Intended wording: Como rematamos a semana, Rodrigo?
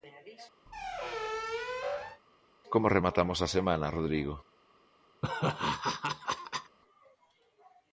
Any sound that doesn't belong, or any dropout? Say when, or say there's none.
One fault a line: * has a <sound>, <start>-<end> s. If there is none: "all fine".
* has a squeak, 0.7-2.2 s
* has a laugh, 5.2-6.8 s